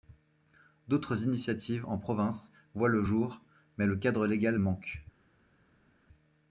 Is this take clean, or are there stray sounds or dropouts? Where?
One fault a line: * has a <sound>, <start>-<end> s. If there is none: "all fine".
all fine